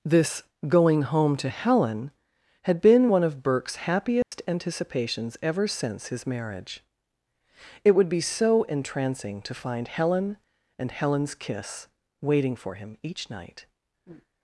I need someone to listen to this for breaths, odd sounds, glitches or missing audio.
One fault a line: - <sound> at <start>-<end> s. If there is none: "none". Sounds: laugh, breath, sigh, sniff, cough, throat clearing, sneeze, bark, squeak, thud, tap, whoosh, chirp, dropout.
- dropout at 4.2-4.3 s